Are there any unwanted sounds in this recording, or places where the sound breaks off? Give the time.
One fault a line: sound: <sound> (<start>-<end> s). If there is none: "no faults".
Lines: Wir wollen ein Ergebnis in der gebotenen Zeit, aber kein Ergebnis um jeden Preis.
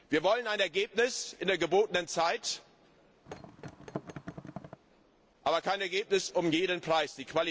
sound: thud (3.3-4.8 s)